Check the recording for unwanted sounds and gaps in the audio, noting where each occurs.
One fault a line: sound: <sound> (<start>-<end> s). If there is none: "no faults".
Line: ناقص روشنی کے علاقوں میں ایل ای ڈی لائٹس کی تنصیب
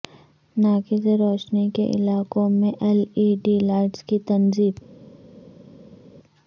no faults